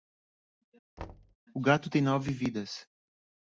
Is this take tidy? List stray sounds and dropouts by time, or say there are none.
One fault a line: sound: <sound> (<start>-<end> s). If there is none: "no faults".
sound: thud (1.0-1.4 s)